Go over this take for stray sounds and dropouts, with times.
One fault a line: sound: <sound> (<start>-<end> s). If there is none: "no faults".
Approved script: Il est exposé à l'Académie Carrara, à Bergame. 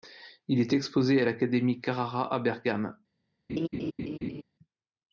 sound: laugh (3.5-4.4 s)